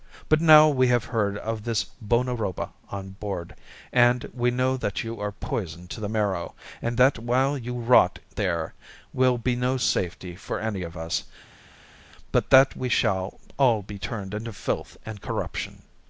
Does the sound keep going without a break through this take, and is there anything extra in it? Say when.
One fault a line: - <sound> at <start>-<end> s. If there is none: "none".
none